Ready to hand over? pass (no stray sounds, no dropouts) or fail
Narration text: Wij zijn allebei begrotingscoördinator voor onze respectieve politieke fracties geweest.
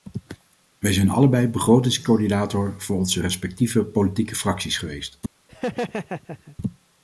fail